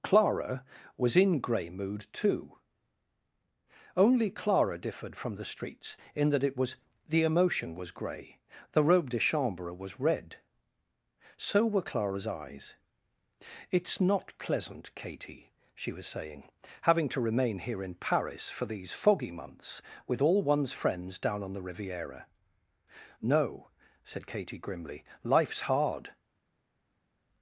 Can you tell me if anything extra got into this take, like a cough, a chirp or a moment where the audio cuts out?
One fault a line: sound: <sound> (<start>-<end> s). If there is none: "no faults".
no faults